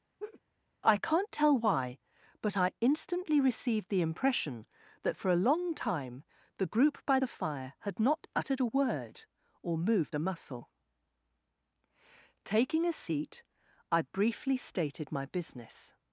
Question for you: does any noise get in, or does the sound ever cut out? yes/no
yes